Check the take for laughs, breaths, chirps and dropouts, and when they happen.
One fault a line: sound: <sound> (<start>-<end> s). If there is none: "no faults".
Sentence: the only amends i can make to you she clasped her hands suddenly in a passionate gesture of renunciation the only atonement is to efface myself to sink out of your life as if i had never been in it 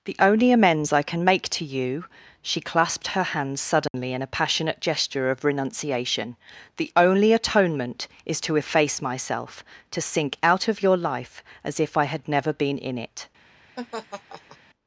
sound: dropout (3.9-3.9 s)
sound: laugh (13.8-14.6 s)